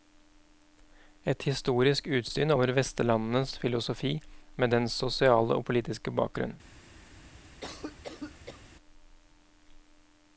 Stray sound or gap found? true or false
true